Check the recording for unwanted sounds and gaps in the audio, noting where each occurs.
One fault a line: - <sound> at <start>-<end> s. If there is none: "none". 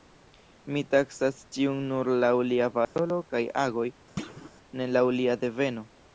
- dropout at 2.8-3.0 s
- thud at 4.2-4.5 s